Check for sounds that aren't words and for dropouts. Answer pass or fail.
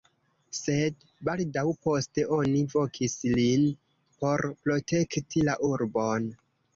pass